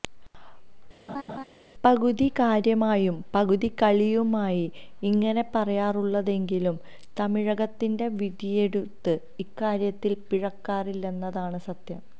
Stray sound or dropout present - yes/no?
yes